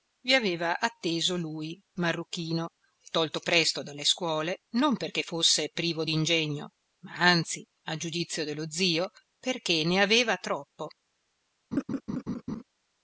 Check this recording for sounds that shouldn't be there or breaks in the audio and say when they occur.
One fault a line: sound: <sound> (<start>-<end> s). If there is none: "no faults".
sound: laugh (11.7-12.6 s)